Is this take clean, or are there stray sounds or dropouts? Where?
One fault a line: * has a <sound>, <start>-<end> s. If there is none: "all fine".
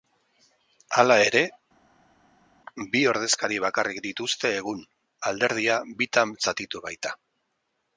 all fine